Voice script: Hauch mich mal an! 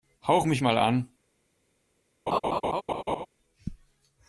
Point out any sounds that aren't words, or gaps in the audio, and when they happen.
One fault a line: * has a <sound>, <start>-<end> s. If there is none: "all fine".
* has a laugh, 2.3-3.3 s